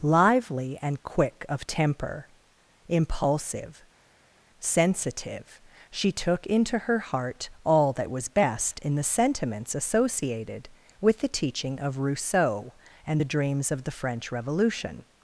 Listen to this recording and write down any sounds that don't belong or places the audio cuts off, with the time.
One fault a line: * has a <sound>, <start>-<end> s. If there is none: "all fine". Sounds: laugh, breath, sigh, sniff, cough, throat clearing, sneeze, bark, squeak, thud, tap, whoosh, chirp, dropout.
all fine